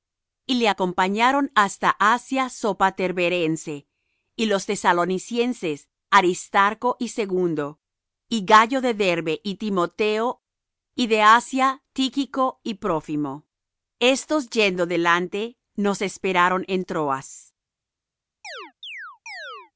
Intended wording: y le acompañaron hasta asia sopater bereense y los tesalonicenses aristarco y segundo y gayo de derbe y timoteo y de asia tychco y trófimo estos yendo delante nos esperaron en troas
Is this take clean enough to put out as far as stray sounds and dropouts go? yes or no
no